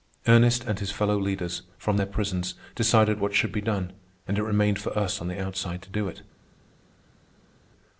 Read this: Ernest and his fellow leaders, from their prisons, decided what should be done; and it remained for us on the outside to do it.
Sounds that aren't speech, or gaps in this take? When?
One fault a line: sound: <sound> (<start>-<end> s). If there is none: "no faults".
no faults